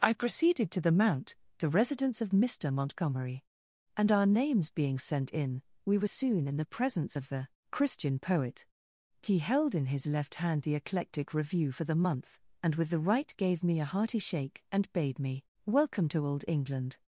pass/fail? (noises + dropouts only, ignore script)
pass